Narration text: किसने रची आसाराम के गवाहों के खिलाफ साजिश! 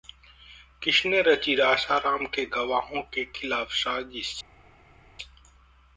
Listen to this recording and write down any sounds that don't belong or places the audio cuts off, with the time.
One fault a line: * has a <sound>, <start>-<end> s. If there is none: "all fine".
all fine